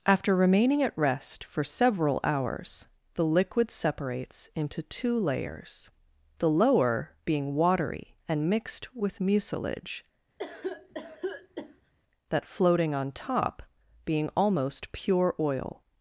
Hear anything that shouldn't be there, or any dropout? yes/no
yes